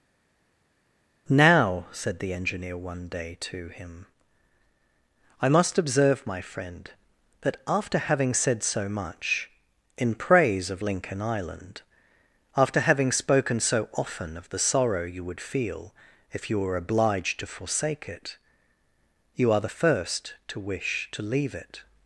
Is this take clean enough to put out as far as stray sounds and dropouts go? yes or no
yes